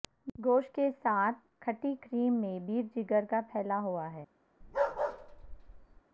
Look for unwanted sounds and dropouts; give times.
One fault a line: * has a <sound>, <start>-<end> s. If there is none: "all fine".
* has a bark, 4.6-6.0 s